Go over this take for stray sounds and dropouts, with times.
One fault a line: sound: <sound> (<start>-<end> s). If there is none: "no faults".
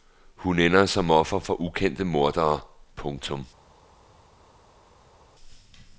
no faults